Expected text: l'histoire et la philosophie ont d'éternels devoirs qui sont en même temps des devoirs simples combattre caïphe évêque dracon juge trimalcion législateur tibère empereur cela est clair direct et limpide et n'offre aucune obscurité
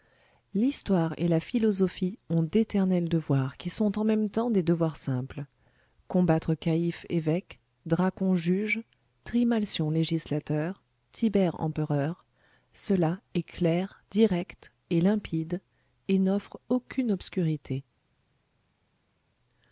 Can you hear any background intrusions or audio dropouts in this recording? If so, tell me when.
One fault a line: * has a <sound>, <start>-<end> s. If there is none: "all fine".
all fine